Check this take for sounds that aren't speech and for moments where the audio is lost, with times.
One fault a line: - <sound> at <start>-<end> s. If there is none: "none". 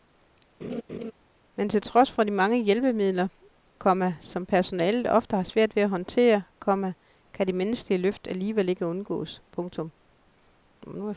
- laugh at 0.6-1.1 s